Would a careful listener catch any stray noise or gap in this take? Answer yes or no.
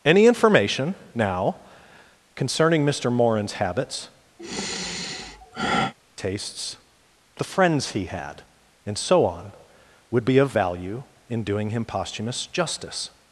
yes